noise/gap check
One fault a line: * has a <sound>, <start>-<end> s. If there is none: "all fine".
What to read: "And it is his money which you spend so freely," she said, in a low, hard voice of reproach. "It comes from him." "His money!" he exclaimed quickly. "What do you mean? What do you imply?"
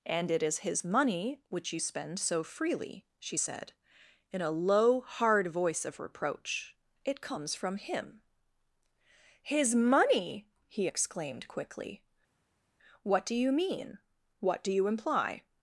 all fine